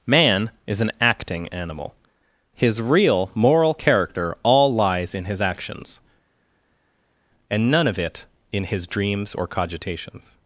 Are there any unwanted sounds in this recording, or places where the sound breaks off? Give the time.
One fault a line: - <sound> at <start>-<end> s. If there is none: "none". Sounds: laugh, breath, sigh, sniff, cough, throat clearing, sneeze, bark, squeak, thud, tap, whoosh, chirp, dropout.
none